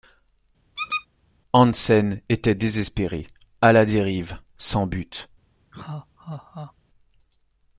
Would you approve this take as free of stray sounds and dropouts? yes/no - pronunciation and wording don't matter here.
no